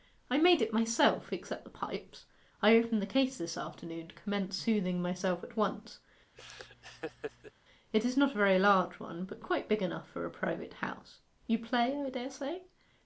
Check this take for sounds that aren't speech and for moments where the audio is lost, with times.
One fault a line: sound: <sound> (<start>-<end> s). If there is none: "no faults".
sound: laugh (6.3-7.5 s)